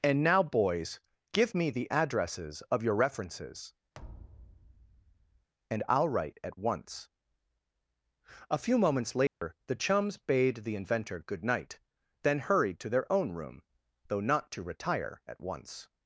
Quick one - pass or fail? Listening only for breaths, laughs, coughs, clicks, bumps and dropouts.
fail